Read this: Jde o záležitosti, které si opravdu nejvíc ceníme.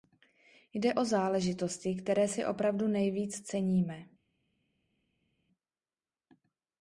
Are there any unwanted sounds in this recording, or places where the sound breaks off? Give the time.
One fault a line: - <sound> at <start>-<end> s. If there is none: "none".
none